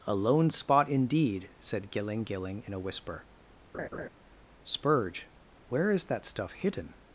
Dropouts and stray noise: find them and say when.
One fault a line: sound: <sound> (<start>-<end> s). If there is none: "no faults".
sound: laugh (3.7-4.1 s)